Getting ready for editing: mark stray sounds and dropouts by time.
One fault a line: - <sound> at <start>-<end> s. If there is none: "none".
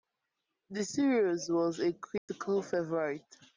- dropout at 2.2-2.3 s